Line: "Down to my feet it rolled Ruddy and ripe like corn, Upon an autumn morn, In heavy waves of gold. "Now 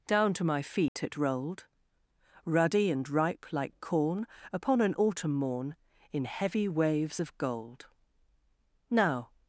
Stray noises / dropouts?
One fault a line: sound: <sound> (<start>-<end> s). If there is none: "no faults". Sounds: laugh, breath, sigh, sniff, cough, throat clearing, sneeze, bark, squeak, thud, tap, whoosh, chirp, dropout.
sound: dropout (0.9-1.0 s)